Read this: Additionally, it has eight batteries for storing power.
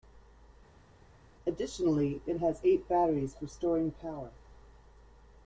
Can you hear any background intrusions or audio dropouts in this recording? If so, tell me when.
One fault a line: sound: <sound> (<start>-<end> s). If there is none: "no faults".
no faults